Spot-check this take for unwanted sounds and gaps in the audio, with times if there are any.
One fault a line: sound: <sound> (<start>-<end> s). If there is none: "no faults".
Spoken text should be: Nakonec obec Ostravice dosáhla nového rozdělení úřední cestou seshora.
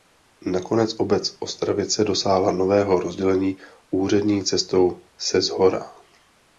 no faults